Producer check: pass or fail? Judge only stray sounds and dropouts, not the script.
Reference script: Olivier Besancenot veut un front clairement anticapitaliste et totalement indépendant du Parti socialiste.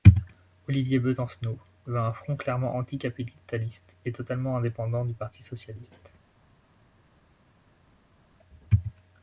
pass